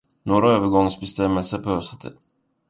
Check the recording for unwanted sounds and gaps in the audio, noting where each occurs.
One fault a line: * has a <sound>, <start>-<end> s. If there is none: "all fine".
all fine